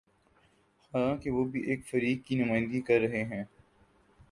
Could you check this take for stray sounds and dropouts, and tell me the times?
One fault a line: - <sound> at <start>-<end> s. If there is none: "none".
none